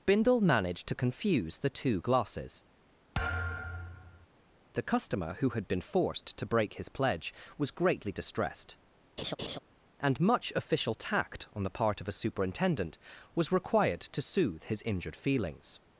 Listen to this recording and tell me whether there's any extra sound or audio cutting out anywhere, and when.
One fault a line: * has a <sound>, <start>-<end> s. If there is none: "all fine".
* has a thud, 3.1-4.3 s
* has a laugh, 9.2-9.6 s